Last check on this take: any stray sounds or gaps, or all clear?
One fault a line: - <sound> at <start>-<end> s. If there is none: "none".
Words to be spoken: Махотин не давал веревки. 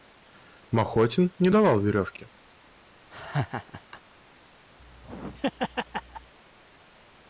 - laugh at 3.1-4.0 s
- laugh at 4.8-6.3 s